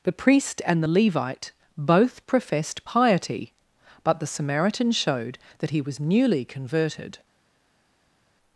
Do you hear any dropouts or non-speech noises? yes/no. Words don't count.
no